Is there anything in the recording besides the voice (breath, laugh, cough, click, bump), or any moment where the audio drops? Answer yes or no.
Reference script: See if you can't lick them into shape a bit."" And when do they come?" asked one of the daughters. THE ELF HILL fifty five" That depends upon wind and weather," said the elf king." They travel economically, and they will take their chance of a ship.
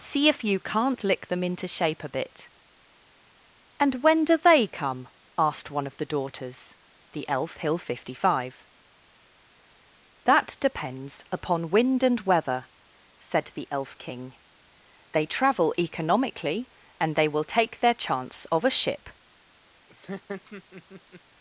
yes